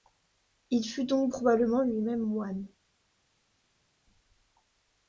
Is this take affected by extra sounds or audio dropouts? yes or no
no